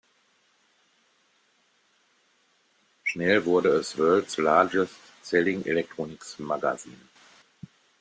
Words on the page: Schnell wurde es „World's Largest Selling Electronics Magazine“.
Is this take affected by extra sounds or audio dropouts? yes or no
no